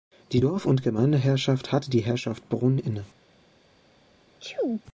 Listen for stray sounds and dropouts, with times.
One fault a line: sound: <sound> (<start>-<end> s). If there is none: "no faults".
sound: sneeze (4.4-4.8 s)